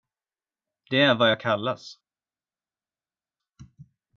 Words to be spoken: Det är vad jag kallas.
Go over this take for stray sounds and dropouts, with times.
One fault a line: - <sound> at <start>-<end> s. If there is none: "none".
none